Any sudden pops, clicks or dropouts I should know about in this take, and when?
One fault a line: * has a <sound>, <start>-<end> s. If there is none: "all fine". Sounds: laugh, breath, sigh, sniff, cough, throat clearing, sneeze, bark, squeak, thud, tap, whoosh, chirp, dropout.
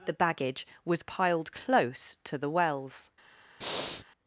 * has a breath, 3.6-4.0 s